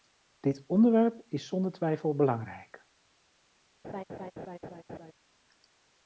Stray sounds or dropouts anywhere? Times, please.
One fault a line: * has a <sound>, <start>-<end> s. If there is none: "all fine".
* has a laugh, 3.8-5.1 s